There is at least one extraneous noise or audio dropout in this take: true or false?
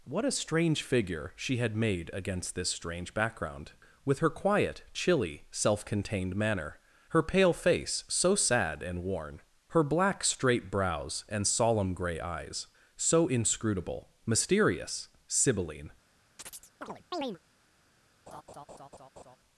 true